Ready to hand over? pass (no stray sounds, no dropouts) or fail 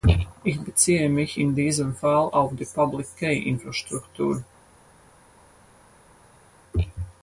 pass